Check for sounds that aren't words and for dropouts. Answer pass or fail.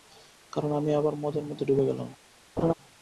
fail